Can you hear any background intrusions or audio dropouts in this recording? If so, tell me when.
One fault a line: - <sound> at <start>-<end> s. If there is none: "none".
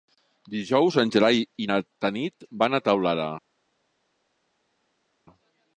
none